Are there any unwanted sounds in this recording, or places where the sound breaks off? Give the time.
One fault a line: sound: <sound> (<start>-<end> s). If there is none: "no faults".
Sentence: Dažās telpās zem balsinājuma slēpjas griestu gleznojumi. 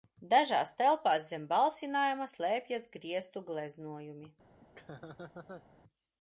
sound: laugh (4.6-5.7 s)